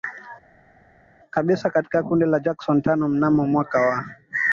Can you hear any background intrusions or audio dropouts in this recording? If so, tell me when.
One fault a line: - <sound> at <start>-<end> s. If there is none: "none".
none